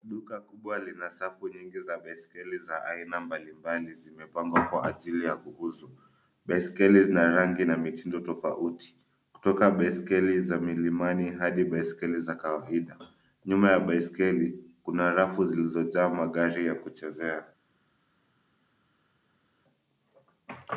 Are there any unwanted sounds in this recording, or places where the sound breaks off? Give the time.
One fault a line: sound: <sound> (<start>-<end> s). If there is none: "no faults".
no faults